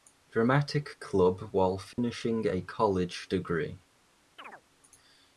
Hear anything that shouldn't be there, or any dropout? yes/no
yes